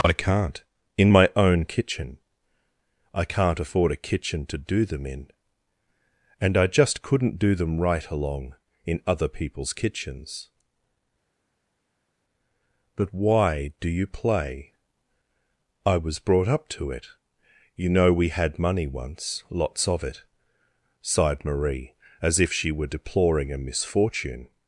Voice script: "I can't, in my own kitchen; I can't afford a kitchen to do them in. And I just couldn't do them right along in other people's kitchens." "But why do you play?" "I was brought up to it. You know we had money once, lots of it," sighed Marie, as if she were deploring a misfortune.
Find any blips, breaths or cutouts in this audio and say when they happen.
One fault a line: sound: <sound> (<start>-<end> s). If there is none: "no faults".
no faults